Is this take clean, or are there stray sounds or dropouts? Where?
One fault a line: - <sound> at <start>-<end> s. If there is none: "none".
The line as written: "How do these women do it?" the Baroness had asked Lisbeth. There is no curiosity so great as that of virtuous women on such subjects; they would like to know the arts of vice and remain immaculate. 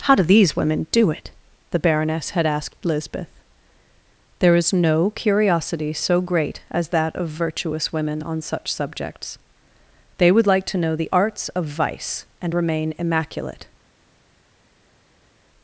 none